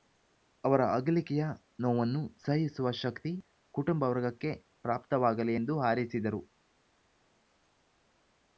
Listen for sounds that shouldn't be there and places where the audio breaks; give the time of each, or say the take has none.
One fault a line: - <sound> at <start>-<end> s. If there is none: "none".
none